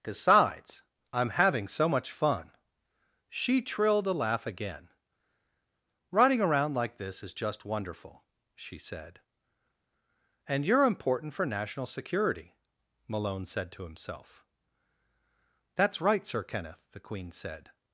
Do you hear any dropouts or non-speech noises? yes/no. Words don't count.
no